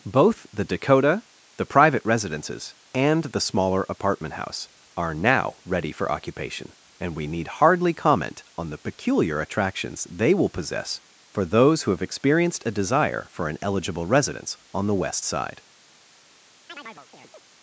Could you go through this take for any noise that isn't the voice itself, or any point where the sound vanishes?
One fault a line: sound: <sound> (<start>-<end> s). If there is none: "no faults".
sound: chirp (16.7-17.4 s)